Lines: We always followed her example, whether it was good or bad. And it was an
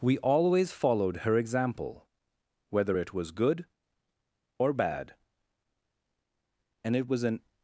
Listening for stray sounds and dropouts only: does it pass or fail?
pass